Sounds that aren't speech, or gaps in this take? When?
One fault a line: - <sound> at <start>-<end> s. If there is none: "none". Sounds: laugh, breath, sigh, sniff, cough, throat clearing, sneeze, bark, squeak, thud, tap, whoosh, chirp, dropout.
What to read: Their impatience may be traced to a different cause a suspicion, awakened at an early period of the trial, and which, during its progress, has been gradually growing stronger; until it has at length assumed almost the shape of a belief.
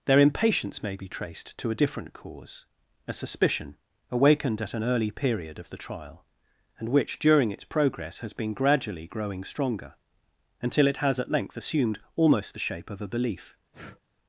- breath at 13.7-14.0 s